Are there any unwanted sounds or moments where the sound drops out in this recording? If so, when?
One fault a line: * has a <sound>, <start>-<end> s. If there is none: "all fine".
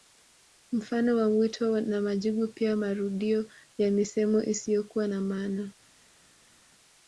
all fine